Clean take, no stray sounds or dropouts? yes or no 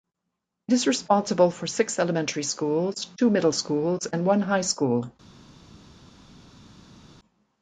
yes